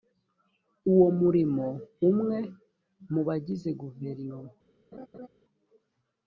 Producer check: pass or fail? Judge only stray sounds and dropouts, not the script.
fail